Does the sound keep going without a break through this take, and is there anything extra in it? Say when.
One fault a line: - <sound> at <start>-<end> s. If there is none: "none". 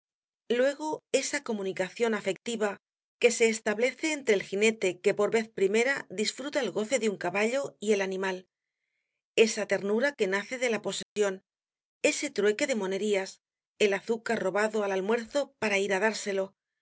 - dropout at 11.0-11.2 s